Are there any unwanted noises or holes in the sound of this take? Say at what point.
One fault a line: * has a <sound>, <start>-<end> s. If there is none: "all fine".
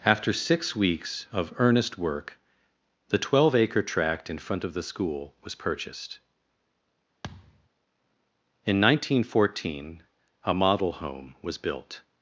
* has a thud, 7.2-7.7 s